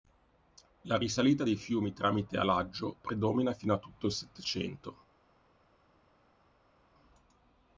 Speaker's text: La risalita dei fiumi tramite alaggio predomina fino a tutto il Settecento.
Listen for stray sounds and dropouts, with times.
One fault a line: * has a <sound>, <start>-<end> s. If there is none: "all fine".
all fine